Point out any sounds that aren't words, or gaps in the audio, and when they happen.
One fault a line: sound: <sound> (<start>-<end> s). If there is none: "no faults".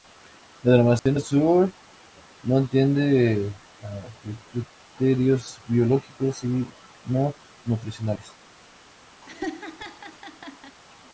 sound: dropout (1.0-1.1 s)
sound: laugh (9.2-10.8 s)